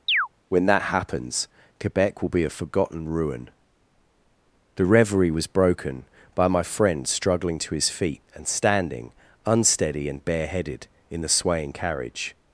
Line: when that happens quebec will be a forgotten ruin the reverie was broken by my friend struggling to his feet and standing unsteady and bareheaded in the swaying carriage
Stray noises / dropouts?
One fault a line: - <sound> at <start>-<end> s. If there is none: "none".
- chirp at 0.1-0.3 s